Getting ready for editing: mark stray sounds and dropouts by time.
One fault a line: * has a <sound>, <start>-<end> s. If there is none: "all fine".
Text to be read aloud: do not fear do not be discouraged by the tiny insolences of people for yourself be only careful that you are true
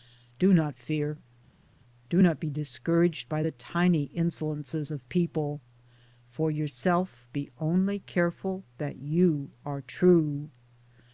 all fine